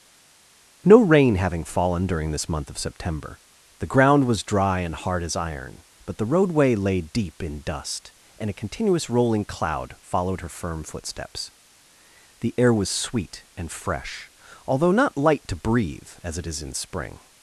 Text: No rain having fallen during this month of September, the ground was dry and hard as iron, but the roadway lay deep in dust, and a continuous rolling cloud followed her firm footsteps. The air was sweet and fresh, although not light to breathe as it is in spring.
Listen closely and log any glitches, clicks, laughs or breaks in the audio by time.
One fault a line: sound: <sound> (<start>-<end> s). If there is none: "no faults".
no faults